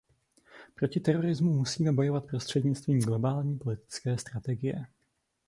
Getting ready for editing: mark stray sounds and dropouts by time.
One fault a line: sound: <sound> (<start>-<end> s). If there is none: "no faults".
no faults